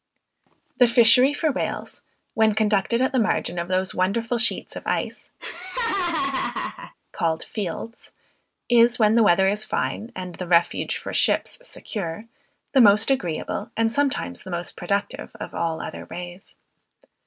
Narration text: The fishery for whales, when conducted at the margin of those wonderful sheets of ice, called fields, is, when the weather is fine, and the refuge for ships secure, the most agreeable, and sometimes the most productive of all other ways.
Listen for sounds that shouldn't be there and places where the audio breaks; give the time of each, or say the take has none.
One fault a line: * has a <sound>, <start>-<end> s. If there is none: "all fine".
* has a laugh, 5.4-6.9 s